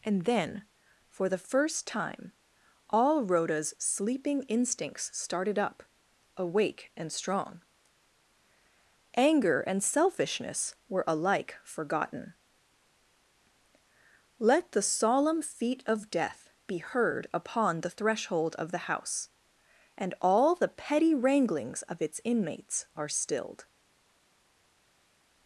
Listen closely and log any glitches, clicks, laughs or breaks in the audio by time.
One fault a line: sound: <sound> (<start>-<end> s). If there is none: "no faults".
no faults